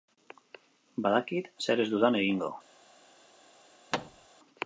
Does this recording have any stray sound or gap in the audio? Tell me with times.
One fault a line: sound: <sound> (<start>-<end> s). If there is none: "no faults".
sound: thud (3.9-4.3 s)